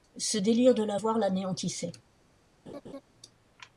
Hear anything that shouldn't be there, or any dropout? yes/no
yes